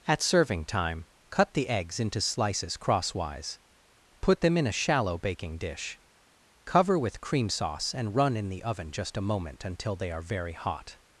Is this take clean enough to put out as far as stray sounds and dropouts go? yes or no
yes